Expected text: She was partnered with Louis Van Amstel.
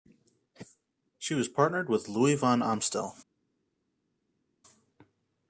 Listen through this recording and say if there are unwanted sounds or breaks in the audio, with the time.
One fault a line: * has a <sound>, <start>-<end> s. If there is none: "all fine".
all fine